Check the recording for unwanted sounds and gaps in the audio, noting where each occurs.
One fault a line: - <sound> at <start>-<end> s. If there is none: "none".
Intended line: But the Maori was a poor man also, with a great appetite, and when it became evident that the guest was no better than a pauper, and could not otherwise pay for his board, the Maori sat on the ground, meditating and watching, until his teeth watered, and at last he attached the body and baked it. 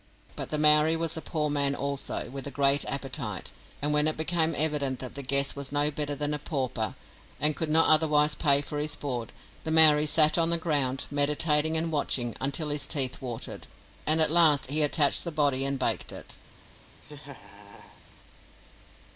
- laugh at 17.0-18.0 s